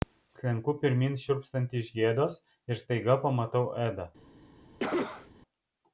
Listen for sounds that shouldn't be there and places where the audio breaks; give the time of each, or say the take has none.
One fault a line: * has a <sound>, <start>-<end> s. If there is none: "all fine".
* has a cough, 4.8-5.3 s